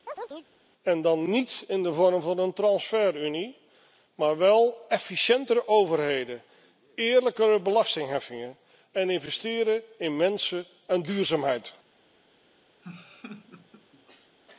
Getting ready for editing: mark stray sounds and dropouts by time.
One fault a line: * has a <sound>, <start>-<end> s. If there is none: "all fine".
* has a chirp, 0.1-0.5 s
* has a laugh, 12.8-14.4 s